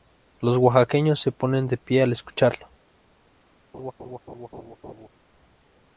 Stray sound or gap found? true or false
true